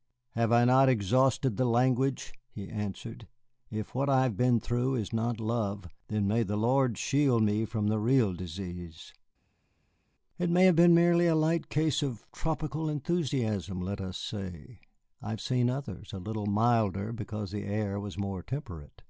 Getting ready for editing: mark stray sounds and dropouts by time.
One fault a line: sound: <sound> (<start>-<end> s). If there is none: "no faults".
no faults